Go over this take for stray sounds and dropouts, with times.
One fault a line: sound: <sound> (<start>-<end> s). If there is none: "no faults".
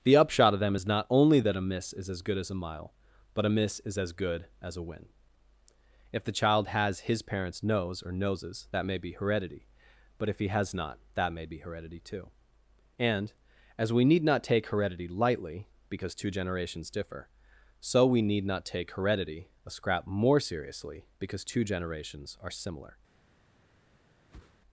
sound: whoosh (24.3-24.6 s)